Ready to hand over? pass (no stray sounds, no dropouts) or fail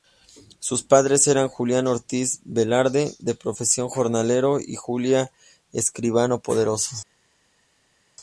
pass